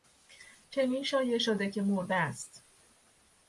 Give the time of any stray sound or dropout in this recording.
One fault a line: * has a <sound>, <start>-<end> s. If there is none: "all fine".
all fine